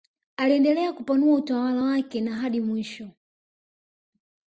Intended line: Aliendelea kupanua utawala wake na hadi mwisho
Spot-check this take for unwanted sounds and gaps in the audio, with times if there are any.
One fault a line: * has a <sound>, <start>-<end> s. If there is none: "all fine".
all fine